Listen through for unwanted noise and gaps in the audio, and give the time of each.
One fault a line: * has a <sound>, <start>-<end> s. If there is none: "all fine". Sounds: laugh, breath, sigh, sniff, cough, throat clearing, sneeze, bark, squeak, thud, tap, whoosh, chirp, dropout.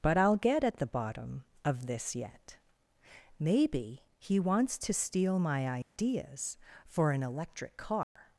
* has a dropout, 5.8-6.0 s
* has a dropout, 8.0-8.2 s